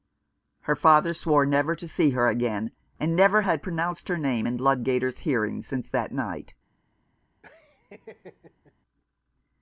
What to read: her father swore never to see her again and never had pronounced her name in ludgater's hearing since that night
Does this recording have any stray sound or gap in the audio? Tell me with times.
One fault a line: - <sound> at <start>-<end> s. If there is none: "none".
- laugh at 7.4-8.7 s